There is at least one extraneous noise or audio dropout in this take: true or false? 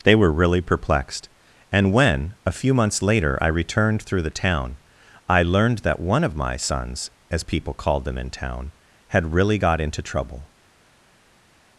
false